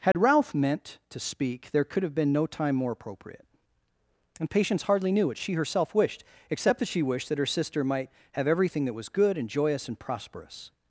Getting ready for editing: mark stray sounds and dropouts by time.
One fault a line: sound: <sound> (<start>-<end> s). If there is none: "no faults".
sound: dropout (0.1-0.1 s)